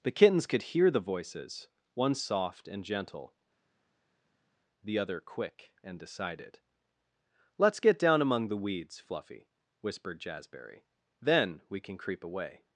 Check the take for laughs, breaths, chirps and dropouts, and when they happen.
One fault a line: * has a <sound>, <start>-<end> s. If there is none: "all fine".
all fine